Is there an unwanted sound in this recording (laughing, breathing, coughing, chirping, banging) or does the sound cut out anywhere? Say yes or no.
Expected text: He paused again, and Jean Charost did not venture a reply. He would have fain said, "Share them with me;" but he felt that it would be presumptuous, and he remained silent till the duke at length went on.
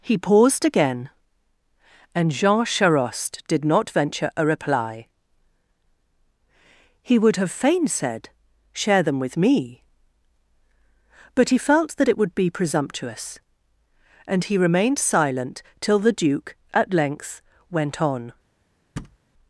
yes